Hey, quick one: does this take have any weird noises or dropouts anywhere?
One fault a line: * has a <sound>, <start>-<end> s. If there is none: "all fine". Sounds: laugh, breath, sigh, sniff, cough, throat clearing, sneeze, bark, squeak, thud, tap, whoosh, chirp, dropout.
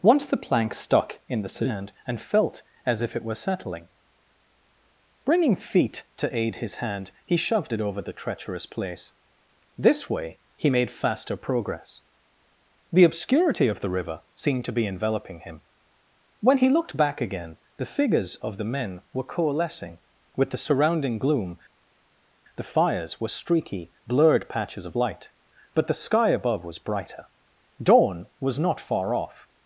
all fine